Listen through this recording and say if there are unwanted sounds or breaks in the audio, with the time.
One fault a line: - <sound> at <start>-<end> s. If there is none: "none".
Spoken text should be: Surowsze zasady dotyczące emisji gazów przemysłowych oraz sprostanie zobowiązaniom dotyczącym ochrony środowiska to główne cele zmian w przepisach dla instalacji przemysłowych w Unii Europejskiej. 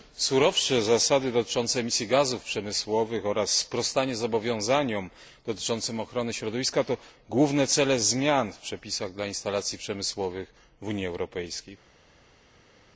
none